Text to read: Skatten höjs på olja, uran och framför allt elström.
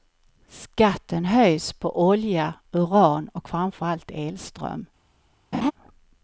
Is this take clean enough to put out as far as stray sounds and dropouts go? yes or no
no